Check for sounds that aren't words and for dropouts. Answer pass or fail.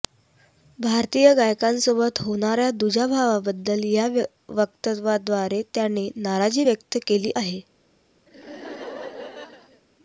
fail